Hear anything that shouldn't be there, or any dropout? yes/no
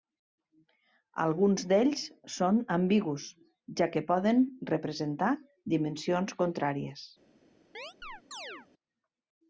yes